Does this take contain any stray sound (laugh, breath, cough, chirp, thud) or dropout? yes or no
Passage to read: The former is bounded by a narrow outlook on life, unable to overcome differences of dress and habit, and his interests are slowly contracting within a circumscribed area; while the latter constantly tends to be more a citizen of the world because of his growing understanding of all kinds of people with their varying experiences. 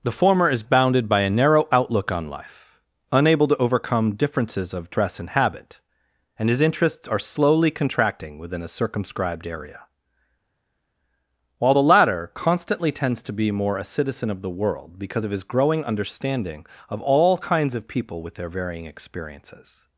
no